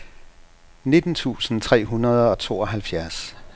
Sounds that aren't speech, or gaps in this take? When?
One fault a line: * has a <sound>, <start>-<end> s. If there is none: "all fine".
all fine